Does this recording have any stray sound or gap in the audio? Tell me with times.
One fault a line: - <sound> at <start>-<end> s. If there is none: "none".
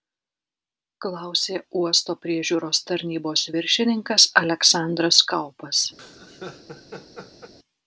- laugh at 6.0-7.5 s